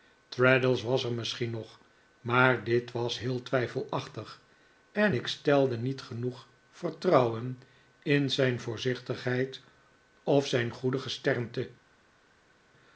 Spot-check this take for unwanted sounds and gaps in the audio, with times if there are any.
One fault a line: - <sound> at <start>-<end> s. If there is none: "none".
none